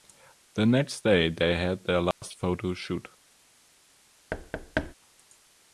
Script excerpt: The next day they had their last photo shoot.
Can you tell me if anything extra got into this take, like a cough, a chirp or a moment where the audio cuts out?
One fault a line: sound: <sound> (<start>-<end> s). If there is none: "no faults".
sound: dropout (2.1-2.2 s)
sound: thud (4.3-4.9 s)